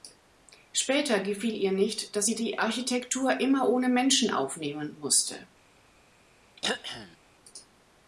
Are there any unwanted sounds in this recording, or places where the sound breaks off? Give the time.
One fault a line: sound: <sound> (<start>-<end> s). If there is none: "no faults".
sound: throat clearing (6.6-7.2 s)